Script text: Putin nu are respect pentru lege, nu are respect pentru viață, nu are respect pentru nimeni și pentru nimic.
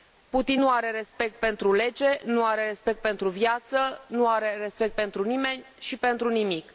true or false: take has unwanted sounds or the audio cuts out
false